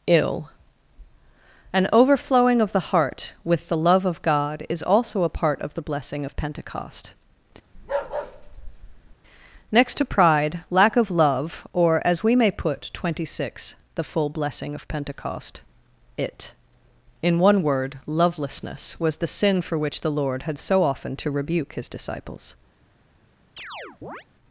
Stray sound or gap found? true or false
true